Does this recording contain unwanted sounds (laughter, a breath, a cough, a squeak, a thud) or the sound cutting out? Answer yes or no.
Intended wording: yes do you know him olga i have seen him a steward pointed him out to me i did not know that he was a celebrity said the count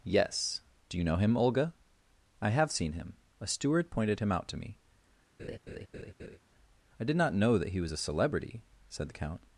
yes